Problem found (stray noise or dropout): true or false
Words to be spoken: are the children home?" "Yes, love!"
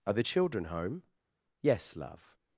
false